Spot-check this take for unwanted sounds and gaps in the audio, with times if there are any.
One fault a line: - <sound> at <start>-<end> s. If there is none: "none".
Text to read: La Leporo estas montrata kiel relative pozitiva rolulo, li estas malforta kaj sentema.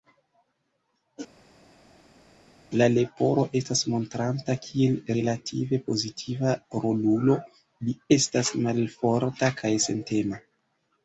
none